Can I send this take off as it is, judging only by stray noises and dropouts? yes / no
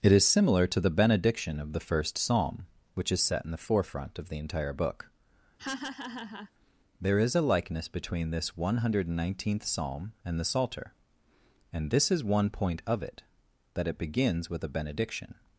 no